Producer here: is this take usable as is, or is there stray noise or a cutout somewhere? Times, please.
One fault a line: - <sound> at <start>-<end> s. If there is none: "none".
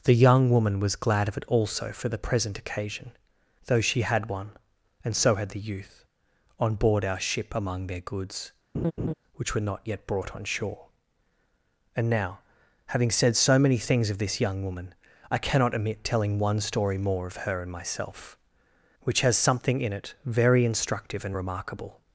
- laugh at 8.7-9.1 s